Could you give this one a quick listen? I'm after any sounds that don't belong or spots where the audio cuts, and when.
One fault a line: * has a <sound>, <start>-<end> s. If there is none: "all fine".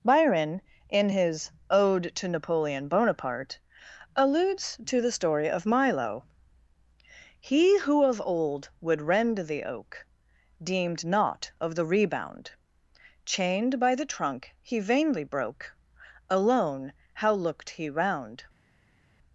all fine